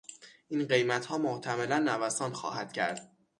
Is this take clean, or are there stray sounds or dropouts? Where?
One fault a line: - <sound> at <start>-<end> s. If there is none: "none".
none